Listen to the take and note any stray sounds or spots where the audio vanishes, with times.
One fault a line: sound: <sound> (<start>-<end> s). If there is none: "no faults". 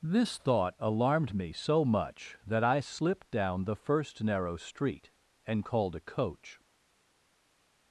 no faults